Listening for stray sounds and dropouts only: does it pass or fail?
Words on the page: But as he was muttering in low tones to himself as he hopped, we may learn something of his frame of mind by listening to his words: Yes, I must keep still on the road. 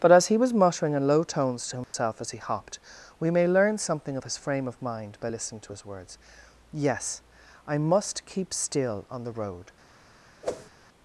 fail